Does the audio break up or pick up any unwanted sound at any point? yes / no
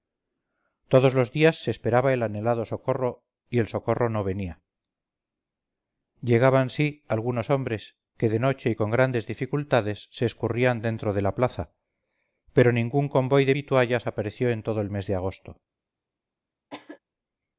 yes